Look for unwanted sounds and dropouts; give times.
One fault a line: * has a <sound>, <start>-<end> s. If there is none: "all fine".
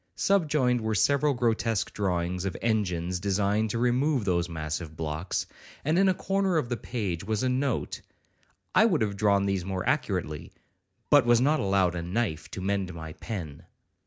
all fine